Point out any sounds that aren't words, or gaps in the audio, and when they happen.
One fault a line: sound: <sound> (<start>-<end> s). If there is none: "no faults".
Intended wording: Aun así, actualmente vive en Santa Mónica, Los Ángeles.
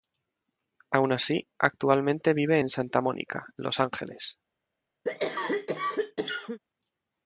sound: cough (5.0-6.6 s)